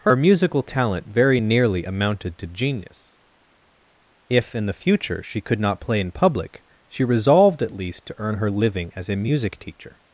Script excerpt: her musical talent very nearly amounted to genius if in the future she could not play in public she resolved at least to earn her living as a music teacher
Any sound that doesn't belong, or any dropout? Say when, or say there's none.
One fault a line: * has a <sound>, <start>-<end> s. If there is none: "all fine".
all fine